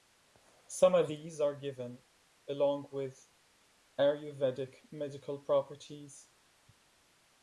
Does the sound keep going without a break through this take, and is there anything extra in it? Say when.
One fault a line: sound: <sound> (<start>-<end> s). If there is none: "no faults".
no faults